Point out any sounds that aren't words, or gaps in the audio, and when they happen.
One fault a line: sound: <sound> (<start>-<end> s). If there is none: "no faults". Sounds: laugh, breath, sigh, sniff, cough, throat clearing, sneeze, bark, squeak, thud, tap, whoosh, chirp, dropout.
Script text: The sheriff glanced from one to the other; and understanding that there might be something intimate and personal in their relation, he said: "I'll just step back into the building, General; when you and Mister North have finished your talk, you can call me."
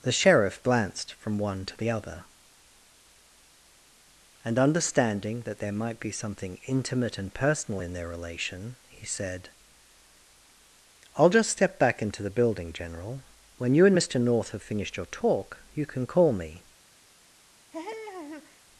sound: laugh (17.7-18.6 s)